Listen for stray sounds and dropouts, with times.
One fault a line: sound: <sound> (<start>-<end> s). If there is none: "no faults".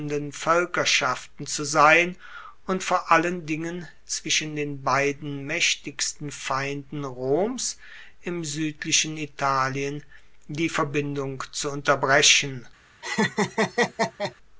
sound: laugh (13.0-14.3 s)